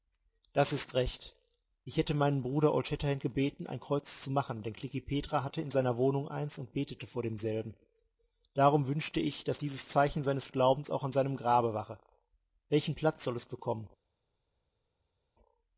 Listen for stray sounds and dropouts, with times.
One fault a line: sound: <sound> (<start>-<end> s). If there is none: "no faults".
no faults